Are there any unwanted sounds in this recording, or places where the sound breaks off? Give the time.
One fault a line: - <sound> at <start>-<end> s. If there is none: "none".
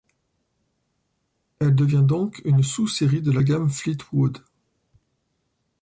none